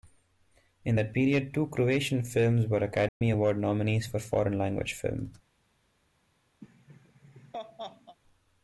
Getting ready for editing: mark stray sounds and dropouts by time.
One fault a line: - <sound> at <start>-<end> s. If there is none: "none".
- dropout at 3.1-3.2 s
- laugh at 6.6-8.2 s